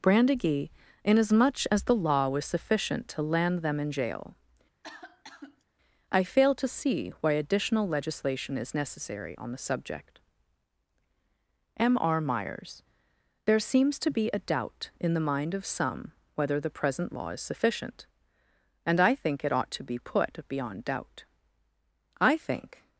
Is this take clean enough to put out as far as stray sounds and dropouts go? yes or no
no